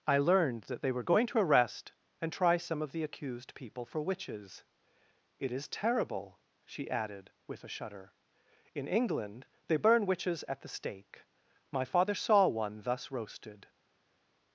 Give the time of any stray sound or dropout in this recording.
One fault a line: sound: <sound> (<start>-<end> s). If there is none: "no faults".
no faults